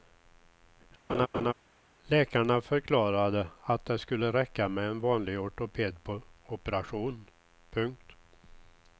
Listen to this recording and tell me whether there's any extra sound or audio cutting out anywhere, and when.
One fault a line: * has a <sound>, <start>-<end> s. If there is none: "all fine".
* has a laugh, 1.1-1.5 s